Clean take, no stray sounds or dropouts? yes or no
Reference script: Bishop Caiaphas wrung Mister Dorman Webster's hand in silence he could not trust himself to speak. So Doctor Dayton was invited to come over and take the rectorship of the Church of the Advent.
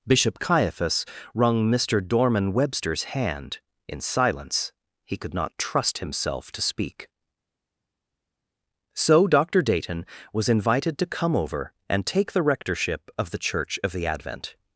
yes